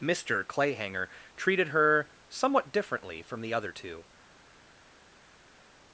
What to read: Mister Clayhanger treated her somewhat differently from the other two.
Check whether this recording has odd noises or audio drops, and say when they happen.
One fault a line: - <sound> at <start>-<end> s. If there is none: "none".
none